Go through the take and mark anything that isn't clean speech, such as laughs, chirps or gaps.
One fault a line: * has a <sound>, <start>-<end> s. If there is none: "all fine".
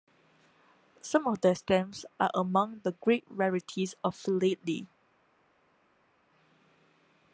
all fine